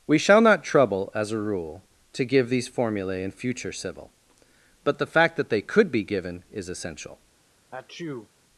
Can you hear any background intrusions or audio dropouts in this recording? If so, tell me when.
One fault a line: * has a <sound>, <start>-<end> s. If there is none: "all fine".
* has a sneeze, 7.7-8.3 s